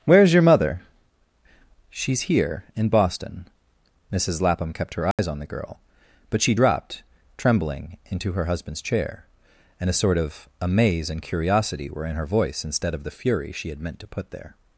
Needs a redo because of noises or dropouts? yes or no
yes